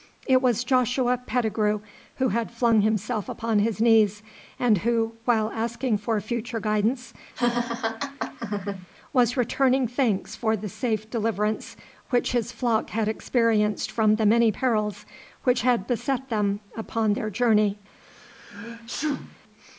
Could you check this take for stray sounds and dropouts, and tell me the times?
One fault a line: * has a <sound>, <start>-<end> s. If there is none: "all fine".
* has a laugh, 7.3-8.9 s
* has a sneeze, 18.0-19.4 s